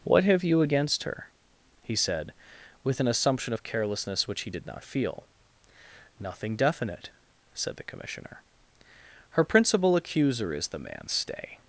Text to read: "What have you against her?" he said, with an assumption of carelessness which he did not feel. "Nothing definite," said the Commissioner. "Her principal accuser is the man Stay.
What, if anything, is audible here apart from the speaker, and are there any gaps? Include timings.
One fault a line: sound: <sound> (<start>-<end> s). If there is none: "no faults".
no faults